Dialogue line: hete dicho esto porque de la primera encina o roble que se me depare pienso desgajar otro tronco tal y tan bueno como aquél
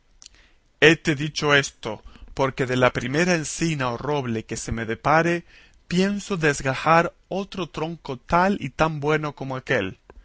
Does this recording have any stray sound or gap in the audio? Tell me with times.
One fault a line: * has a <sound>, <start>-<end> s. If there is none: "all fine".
all fine